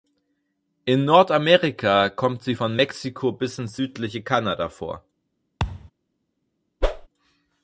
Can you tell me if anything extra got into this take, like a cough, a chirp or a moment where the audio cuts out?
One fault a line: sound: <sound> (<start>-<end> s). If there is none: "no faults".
sound: thud (5.6-5.9 s)
sound: whoosh (6.8-7.1 s)